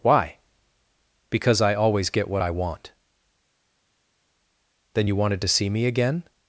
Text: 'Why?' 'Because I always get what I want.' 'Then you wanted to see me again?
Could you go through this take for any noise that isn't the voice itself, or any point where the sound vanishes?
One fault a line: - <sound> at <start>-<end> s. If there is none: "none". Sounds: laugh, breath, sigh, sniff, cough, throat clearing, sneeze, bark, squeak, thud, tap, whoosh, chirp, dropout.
none